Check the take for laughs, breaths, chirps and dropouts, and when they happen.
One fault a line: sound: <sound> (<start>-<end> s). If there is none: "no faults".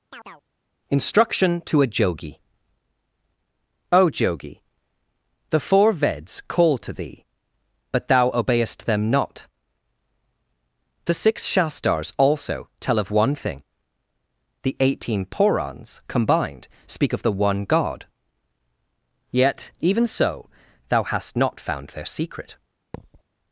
sound: chirp (0.1-0.4 s)
sound: thud (22.9-23.2 s)